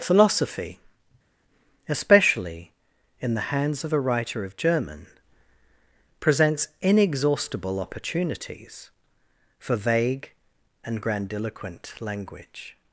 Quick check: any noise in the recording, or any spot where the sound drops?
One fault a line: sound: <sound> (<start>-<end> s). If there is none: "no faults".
no faults